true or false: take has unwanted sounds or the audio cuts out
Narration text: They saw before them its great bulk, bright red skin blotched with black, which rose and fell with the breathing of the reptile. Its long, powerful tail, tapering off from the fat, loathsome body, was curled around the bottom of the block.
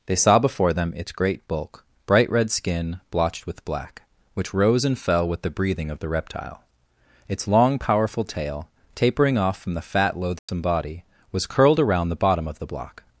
true